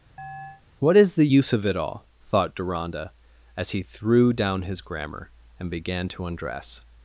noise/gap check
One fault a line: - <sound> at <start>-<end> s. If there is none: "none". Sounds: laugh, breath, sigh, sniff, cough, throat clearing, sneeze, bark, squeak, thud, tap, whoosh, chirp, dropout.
- chirp at 0.2-0.6 s